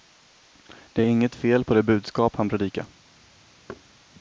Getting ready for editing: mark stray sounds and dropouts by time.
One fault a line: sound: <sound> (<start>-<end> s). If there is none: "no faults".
sound: thud (3.7-3.8 s)